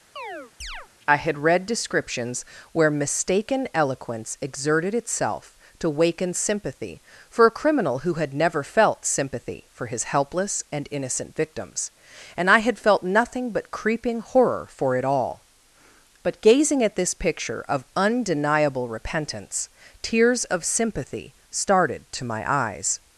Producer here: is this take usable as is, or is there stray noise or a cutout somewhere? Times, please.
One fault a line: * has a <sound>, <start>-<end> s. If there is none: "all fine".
* has a chirp, 0.2-0.9 s